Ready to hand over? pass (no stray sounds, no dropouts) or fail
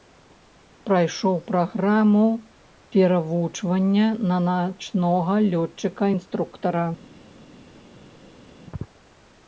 pass